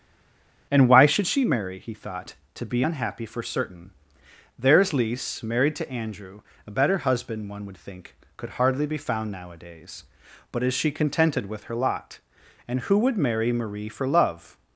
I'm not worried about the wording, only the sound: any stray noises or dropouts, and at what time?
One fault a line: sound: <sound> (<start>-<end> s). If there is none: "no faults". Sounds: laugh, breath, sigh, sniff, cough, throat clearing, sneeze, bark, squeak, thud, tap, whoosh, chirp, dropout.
no faults